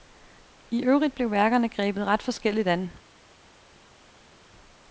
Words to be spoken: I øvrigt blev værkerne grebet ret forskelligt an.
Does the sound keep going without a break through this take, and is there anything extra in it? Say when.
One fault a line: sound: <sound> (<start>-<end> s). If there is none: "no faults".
no faults